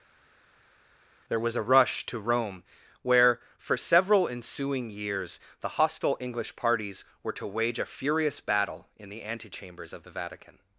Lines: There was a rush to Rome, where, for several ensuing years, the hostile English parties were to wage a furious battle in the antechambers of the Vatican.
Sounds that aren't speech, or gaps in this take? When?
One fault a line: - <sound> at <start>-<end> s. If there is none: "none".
none